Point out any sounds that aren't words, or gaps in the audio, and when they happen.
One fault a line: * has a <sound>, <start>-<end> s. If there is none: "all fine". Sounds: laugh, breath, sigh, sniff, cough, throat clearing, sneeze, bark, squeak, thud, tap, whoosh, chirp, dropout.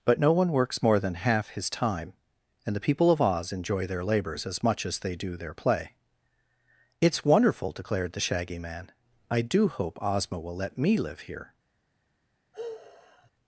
* has a sigh, 12.5-13.3 s